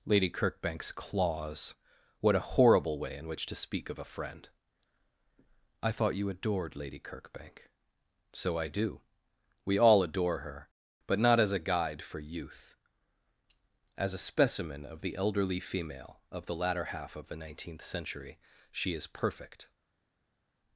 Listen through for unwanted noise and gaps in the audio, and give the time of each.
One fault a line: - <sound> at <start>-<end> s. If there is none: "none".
none